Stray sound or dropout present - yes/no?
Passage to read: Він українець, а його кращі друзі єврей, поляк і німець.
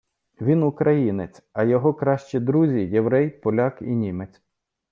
no